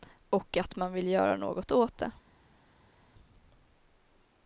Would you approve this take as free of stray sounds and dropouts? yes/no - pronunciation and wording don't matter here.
yes